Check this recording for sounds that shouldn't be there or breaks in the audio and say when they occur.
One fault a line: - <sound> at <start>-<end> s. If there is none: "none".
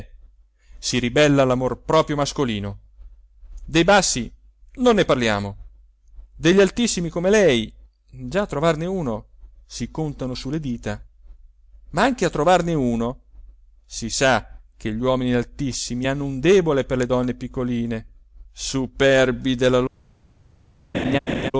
- laugh at 20.9-21.5 s